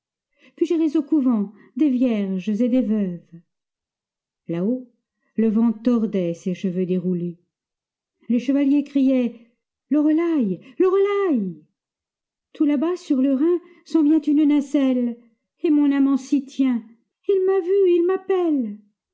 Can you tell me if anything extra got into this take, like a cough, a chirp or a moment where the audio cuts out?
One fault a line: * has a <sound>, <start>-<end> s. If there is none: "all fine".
all fine